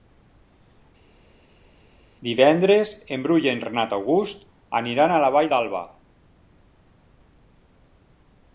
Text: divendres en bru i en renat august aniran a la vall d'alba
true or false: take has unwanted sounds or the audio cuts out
false